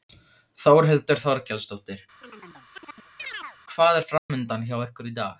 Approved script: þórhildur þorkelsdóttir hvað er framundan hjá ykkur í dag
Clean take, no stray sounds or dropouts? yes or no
no